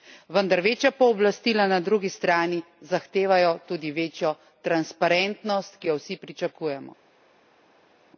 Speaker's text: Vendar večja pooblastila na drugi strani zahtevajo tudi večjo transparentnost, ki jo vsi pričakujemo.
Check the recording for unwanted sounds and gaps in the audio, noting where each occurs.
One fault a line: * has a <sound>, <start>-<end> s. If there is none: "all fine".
all fine